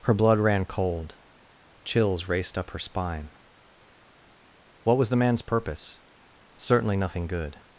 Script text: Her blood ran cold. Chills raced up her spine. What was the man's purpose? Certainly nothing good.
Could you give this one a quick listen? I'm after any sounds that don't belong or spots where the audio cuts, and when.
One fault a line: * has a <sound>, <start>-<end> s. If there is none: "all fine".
all fine